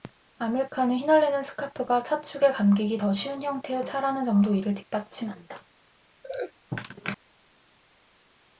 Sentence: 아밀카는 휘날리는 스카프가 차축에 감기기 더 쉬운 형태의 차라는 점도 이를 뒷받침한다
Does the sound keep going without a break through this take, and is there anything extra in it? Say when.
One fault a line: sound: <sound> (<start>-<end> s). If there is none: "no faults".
sound: laugh (6.2-6.5 s)